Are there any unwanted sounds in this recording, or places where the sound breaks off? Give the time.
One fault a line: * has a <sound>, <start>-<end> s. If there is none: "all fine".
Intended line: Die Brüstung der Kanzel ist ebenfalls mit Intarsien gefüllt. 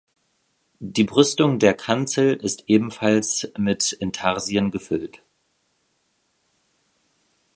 all fine